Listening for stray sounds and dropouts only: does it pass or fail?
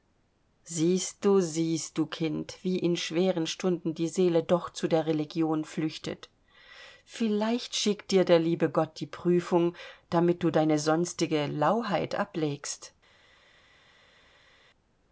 pass